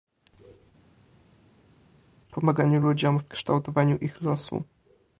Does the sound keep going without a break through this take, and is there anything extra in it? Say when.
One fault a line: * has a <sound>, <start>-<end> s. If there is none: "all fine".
all fine